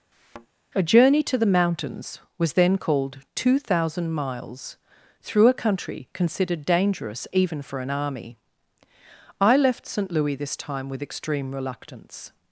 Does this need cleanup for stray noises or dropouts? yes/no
yes